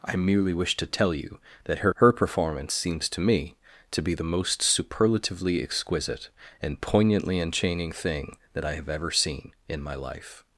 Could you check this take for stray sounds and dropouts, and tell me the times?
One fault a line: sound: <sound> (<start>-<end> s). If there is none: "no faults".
no faults